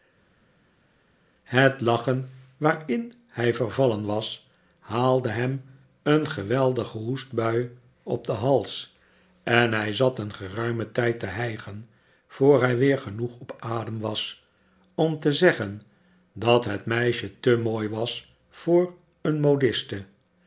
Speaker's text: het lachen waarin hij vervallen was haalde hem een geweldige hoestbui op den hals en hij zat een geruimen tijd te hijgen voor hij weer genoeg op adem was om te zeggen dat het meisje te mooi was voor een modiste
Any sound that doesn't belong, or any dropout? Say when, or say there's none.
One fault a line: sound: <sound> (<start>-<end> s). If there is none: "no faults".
no faults